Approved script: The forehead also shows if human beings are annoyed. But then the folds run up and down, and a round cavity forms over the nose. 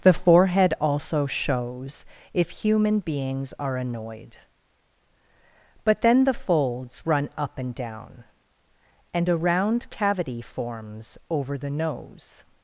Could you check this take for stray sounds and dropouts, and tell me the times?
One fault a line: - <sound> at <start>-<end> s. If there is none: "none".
none